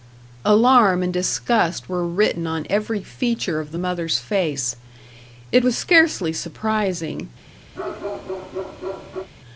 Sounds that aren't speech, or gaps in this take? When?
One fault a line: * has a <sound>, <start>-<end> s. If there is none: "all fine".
* has a bark, 7.7-9.3 s